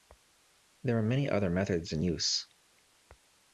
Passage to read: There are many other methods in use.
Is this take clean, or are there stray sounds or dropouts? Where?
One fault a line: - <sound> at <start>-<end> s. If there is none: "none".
none